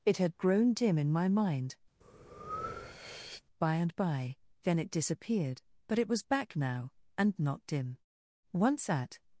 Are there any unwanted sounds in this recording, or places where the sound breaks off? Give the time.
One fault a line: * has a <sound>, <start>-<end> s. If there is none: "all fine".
* has a breath, 2.0-3.4 s